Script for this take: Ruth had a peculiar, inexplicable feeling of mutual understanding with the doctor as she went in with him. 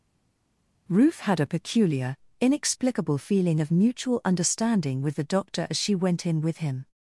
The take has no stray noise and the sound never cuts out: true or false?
true